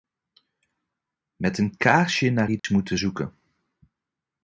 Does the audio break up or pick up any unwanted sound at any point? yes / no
yes